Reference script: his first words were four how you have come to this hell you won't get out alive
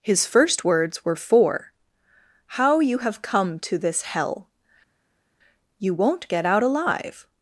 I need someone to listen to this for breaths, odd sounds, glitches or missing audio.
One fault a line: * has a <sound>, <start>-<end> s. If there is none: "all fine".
all fine